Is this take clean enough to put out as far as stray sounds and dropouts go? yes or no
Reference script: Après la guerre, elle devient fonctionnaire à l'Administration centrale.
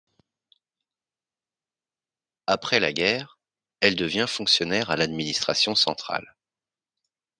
yes